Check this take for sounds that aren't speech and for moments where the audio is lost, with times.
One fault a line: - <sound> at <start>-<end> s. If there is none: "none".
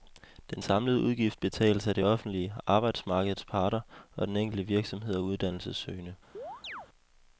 - chirp at 6.3-6.9 s